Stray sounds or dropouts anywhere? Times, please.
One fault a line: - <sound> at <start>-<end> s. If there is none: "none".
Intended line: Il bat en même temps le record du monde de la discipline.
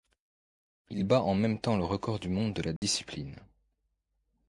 - dropout at 2.8-2.8 s